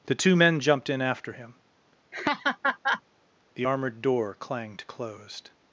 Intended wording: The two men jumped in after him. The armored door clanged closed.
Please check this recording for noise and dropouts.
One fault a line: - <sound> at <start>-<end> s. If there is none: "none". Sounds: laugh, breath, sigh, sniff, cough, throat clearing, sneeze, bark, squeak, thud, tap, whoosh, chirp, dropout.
- laugh at 2.1-3.0 s